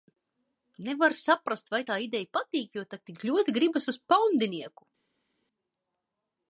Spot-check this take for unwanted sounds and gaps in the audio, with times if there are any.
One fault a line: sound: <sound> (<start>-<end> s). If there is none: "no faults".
no faults